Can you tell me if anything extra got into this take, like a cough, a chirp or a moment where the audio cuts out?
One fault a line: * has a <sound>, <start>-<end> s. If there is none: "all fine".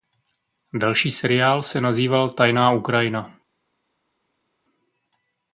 all fine